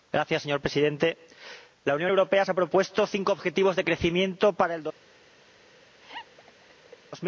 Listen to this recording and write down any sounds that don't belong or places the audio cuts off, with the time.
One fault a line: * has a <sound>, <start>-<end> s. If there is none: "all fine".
* has a laugh, 6.0-7.0 s